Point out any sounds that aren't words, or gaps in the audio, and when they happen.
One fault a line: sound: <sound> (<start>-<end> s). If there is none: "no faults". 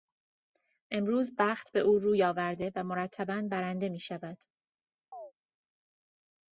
sound: chirp (5.1-5.3 s)